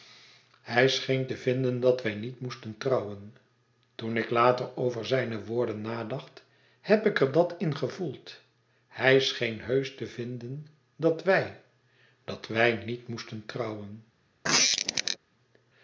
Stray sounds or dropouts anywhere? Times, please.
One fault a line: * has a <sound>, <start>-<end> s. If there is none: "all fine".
* has a squeak, 14.4-15.2 s